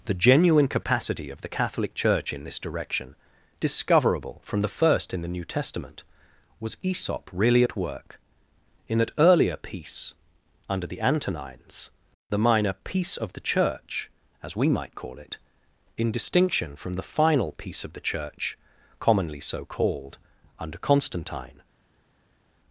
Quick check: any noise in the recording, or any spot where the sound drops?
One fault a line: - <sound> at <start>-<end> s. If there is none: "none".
none